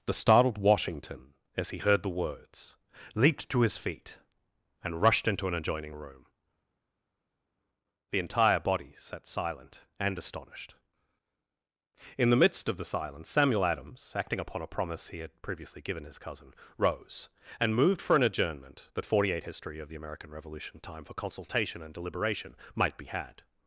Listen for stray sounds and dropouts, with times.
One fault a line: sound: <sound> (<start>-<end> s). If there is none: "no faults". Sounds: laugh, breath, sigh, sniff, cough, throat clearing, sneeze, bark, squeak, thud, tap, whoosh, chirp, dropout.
no faults